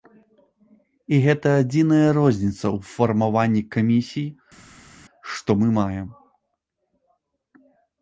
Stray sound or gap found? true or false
false